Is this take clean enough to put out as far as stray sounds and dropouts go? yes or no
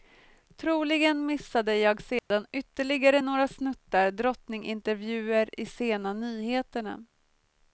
no